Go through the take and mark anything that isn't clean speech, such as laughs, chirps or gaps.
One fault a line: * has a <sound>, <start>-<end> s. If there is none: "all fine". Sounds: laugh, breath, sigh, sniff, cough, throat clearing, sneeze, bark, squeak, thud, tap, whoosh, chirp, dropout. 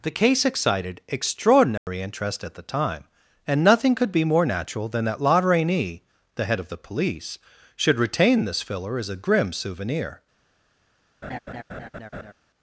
* has a dropout, 1.8-1.9 s
* has a laugh, 11.2-12.3 s